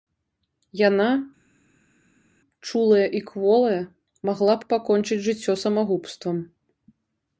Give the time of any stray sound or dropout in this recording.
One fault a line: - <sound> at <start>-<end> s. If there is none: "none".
none